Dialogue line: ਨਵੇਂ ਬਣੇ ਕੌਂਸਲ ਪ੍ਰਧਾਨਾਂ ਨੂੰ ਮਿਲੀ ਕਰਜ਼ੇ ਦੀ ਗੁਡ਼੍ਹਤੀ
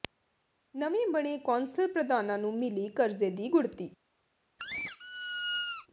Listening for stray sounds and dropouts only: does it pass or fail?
fail